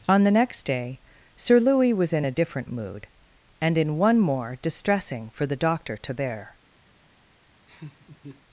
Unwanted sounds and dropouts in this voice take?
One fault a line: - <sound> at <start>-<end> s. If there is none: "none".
- laugh at 7.7-8.4 s